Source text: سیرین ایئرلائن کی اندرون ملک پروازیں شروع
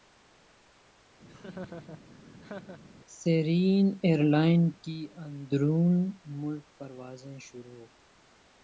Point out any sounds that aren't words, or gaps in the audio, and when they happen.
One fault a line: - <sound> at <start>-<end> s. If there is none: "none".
- laugh at 1.3-2.8 s